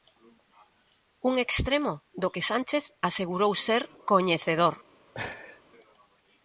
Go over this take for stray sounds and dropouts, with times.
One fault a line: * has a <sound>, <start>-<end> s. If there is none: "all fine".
* has a laugh, 5.1-5.6 s